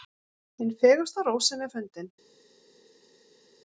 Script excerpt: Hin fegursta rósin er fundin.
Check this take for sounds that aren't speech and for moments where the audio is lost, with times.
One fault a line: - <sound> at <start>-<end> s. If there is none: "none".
none